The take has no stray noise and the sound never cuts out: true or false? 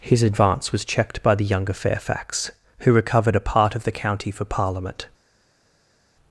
true